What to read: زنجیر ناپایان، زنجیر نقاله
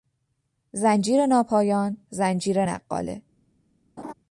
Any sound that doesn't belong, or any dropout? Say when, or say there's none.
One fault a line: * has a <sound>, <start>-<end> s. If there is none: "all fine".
* has a laugh, 4.0-4.1 s